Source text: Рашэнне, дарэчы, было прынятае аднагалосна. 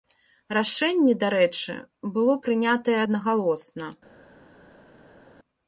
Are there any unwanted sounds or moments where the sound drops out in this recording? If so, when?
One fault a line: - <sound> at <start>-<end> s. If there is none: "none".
none